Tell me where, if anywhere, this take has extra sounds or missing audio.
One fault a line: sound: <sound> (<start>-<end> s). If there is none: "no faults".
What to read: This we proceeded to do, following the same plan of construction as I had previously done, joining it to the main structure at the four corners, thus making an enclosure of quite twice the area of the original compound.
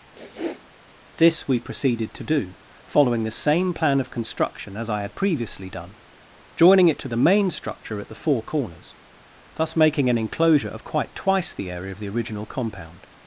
sound: sniff (0.1-0.7 s)